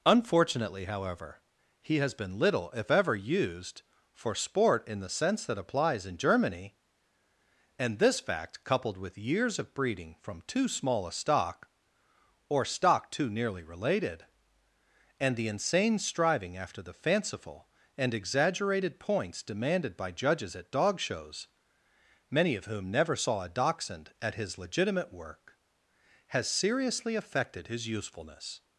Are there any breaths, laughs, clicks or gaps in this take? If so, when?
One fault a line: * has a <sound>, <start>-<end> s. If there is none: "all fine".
all fine